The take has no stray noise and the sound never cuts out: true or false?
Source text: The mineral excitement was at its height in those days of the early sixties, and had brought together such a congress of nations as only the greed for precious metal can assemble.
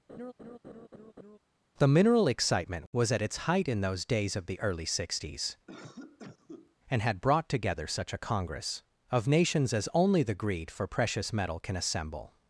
false